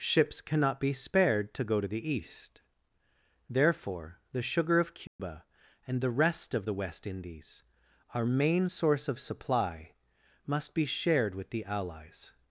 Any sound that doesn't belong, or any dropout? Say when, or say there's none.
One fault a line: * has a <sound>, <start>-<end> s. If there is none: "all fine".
* has a dropout, 5.1-5.2 s